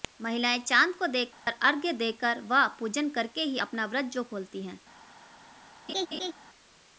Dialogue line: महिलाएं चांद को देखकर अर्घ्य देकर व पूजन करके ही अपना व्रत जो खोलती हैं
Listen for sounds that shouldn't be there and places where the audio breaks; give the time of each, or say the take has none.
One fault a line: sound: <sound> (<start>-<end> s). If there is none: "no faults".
sound: dropout (1.3-1.5 s)
sound: laugh (5.9-6.3 s)